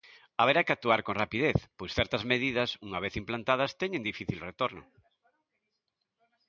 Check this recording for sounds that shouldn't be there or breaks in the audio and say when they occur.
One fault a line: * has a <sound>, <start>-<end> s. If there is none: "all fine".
all fine